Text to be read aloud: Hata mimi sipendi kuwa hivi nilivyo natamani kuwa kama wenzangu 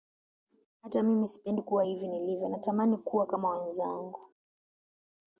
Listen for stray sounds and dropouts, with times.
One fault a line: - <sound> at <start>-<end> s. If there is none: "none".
none